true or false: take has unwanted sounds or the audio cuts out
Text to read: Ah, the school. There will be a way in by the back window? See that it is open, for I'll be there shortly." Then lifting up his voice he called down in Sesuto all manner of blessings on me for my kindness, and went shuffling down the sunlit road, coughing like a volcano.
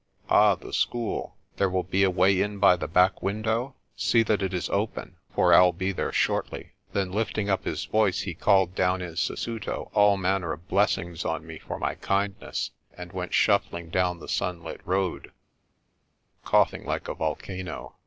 false